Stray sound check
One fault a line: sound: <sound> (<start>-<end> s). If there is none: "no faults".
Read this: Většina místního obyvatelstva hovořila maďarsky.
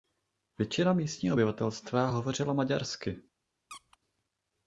sound: squeak (3.7-4.0 s)